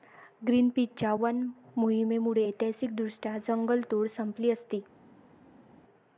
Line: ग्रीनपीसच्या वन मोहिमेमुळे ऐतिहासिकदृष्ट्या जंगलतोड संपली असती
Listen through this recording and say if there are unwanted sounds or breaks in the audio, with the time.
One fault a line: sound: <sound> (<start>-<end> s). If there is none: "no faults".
no faults